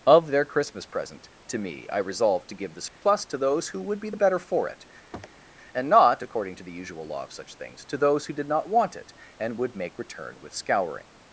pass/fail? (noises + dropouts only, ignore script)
fail